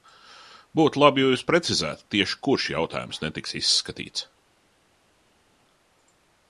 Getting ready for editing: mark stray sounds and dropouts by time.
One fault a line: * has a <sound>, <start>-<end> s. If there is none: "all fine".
all fine